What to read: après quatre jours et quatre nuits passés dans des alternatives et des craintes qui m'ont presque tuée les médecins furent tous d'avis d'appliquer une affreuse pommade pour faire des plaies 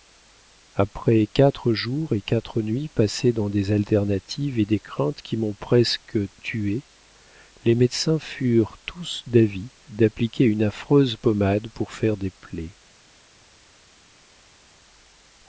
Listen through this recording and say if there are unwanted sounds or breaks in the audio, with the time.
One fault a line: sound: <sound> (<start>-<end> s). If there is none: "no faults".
no faults